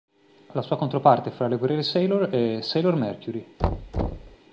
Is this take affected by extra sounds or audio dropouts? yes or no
yes